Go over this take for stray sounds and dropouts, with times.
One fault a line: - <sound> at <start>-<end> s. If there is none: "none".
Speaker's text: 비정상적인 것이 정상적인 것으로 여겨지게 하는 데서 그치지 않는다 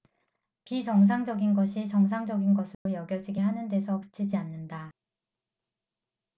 - dropout at 2.7-2.9 s